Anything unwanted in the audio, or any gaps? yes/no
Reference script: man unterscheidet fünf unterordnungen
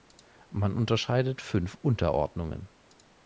no